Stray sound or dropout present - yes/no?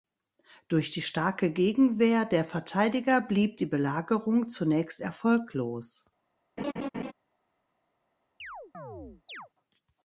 yes